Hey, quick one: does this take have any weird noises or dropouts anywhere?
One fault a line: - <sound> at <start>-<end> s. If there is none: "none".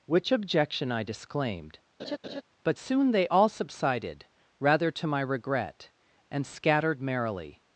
- laugh at 2.0-2.4 s